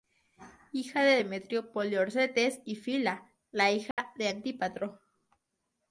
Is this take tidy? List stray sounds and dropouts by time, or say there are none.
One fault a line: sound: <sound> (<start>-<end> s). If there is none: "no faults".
sound: dropout (3.9-4.0 s)